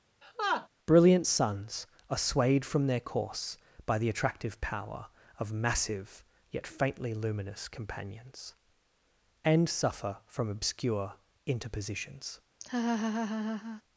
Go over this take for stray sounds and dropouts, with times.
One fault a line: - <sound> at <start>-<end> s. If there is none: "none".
- laugh at 0.2-0.7 s
- laugh at 12.6-13.8 s